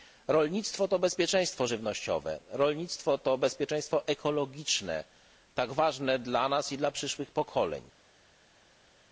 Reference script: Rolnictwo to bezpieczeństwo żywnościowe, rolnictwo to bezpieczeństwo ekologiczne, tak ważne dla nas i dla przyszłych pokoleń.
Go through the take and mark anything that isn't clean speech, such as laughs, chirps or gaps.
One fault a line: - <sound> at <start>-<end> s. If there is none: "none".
none